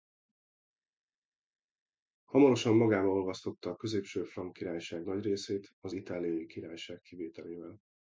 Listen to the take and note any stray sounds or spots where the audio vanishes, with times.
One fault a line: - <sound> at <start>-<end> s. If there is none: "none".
none